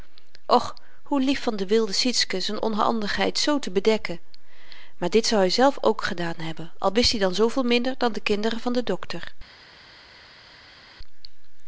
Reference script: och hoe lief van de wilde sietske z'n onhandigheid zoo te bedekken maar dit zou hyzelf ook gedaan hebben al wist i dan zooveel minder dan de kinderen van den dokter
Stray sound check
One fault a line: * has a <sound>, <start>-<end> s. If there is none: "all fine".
all fine